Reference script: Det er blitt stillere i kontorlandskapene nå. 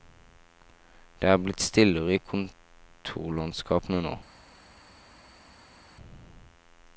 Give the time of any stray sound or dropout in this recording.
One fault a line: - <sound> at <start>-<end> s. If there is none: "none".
none